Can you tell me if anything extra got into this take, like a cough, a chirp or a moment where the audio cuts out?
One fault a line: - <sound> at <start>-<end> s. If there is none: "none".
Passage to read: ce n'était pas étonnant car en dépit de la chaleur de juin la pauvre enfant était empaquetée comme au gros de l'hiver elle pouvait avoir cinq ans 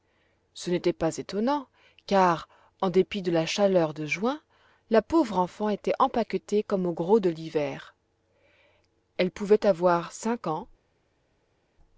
none